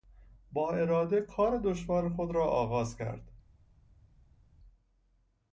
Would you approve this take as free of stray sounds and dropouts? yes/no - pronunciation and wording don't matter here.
yes